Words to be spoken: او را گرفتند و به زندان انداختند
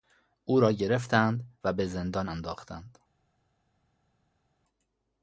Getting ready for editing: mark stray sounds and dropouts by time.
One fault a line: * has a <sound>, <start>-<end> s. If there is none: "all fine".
all fine